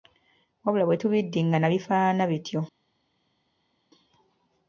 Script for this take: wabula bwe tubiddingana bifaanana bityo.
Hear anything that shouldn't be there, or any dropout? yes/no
no